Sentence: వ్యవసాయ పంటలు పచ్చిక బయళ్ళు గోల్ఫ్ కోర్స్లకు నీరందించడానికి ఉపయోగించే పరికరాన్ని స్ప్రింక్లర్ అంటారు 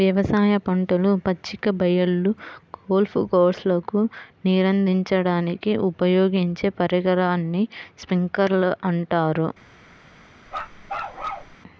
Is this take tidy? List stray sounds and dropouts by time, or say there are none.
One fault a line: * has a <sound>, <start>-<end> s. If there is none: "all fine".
* has a bark, 10.5-11.6 s